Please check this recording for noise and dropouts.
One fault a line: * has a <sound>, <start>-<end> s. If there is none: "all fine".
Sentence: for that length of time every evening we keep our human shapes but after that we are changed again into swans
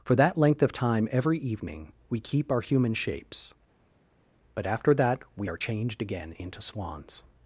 all fine